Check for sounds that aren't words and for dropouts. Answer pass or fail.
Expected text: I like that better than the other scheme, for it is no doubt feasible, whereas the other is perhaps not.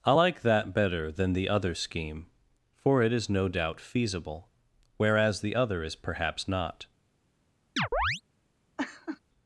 fail